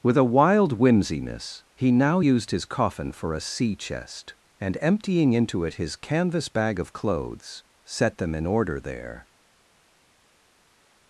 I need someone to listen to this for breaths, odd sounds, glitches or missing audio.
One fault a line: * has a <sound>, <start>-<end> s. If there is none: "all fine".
all fine